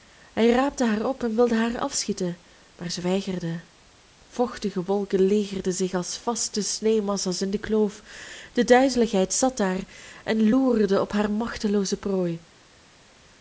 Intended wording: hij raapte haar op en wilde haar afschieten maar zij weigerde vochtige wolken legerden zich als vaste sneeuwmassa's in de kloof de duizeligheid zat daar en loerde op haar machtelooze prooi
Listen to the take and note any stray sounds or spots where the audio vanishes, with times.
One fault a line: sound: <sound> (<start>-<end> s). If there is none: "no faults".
no faults